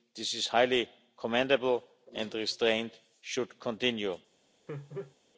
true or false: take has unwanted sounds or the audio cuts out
true